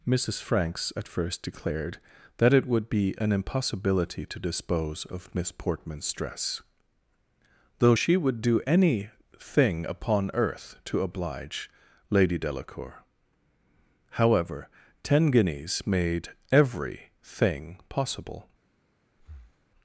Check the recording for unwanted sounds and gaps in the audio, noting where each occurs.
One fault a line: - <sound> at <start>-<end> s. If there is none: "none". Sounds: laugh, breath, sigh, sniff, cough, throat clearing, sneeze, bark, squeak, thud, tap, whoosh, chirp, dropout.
- breath at 19.2-19.7 s